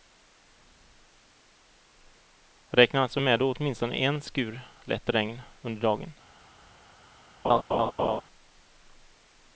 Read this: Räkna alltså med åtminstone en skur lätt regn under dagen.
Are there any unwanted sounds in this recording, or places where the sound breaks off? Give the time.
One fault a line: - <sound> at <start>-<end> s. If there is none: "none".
- laugh at 7.4-8.2 s